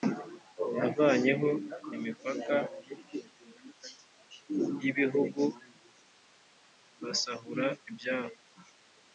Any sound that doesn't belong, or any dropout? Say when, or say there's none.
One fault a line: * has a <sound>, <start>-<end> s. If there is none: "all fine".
all fine